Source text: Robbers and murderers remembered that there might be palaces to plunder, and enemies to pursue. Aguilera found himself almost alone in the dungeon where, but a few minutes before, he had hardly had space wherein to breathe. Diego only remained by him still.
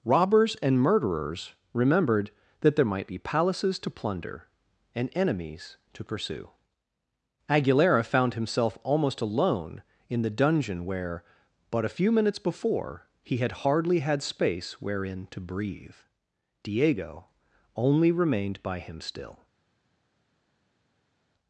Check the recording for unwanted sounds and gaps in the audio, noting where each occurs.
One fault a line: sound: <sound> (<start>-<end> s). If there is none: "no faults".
no faults